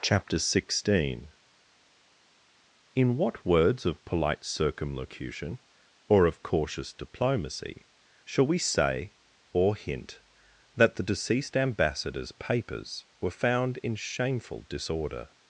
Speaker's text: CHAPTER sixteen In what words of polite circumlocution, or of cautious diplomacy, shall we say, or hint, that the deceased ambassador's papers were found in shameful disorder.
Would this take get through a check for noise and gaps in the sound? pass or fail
pass